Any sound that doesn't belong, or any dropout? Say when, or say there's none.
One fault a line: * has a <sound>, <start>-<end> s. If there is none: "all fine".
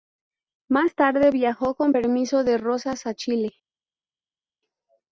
all fine